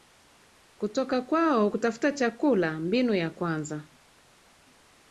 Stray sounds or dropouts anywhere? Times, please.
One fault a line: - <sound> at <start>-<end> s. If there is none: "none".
none